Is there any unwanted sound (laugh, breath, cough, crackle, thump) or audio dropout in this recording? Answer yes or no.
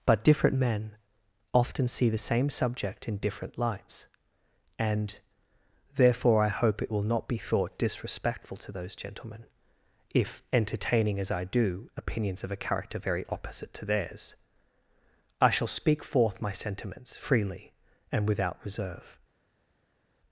no